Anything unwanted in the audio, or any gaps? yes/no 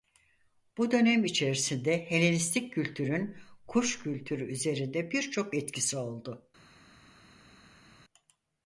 no